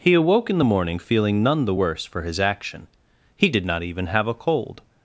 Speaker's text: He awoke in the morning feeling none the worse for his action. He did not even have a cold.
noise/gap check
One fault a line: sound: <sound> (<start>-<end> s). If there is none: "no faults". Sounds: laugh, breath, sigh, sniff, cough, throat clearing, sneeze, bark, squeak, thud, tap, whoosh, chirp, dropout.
no faults